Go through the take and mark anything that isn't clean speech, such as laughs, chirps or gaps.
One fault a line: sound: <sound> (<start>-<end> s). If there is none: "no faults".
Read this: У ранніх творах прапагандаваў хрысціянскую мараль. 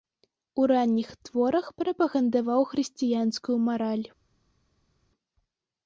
no faults